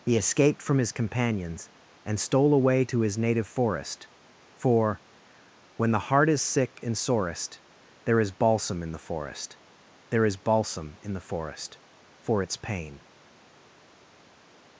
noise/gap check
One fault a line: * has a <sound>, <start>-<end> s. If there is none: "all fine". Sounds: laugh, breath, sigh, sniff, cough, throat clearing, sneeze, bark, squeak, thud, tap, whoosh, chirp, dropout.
all fine